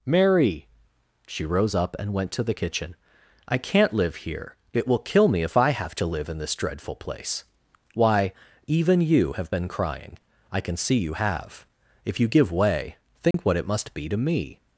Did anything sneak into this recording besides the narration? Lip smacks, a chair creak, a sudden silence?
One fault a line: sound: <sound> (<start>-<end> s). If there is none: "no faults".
sound: dropout (13.3-13.3 s)